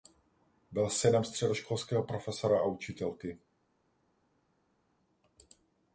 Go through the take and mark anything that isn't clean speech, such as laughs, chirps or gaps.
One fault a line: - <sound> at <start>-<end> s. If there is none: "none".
none